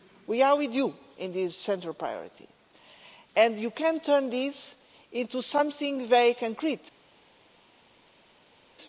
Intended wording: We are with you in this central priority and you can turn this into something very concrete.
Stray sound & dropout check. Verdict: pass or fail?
pass